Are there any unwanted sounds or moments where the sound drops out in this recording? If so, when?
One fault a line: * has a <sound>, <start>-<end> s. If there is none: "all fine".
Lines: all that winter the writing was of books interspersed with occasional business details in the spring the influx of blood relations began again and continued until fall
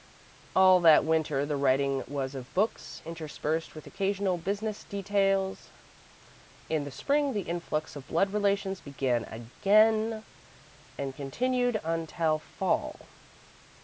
all fine